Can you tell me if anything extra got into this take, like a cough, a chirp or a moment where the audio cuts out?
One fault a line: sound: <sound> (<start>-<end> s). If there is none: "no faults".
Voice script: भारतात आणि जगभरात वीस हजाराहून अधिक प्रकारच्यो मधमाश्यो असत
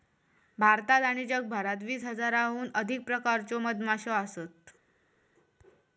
no faults